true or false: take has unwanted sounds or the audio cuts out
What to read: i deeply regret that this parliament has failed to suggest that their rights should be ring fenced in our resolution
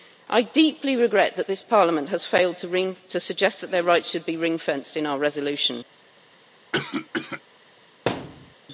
true